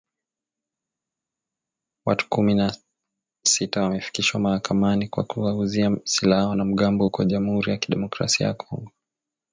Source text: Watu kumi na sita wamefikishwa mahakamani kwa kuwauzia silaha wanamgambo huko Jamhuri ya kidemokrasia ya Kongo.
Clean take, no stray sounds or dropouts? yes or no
yes